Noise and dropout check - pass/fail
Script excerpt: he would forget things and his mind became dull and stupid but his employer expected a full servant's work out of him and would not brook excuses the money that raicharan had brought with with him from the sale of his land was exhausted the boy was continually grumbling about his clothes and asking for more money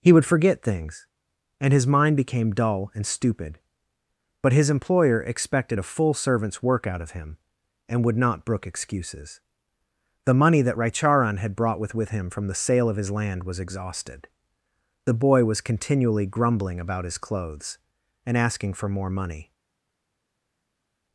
pass